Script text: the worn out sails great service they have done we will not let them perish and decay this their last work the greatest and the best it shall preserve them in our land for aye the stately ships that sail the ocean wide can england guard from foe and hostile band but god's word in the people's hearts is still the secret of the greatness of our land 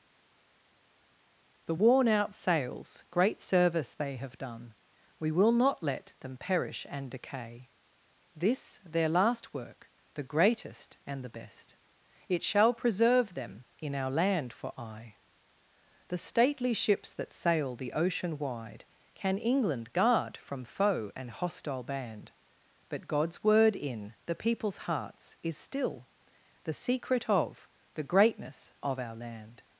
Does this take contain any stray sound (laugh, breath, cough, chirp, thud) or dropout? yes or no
no